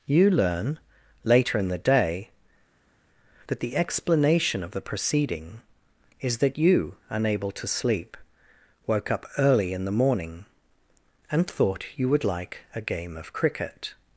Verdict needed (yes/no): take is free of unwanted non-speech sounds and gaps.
yes